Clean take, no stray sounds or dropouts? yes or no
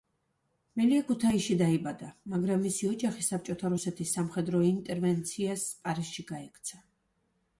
yes